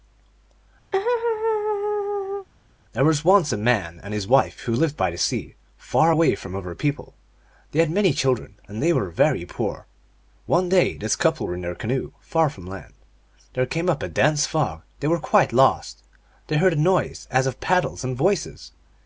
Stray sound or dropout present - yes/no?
yes